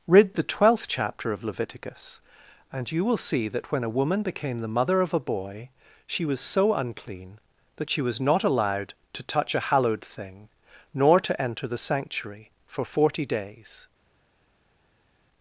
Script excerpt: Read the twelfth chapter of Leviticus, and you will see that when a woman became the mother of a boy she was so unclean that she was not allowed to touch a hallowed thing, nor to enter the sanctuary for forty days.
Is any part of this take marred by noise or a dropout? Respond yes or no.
no